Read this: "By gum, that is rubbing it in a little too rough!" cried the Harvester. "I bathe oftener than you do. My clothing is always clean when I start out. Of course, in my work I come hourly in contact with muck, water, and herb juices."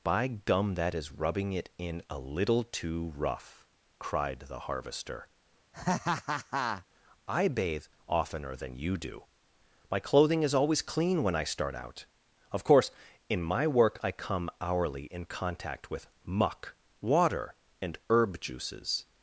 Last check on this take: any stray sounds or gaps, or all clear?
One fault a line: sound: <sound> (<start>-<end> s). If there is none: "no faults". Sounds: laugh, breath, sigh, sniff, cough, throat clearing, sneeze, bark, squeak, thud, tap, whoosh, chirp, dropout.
sound: laugh (5.7-6.9 s)